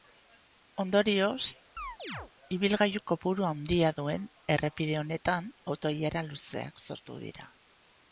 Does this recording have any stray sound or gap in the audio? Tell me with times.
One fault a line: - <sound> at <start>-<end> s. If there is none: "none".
- chirp at 1.8-2.3 s